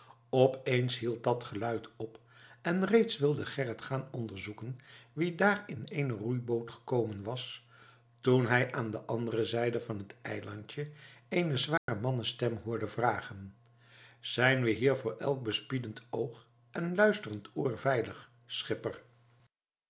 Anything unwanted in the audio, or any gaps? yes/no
yes